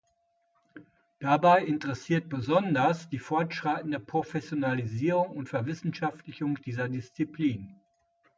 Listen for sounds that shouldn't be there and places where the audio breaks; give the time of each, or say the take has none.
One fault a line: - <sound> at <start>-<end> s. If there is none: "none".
none